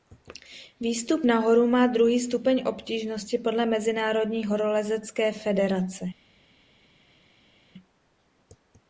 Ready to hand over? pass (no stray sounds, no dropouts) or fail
pass